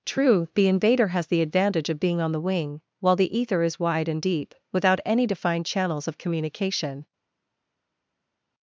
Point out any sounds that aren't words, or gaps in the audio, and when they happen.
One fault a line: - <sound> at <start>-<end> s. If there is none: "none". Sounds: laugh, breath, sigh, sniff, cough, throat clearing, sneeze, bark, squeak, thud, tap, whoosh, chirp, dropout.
none